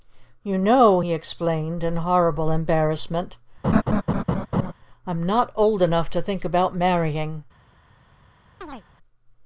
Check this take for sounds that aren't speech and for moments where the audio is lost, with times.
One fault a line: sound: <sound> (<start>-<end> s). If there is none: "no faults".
sound: laugh (3.6-4.7 s)
sound: chirp (8.6-8.8 s)